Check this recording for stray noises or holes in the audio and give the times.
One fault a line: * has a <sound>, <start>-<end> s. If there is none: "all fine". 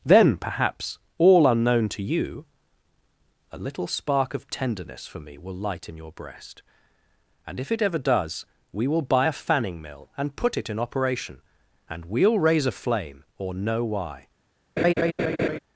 * has a laugh, 14.8-15.6 s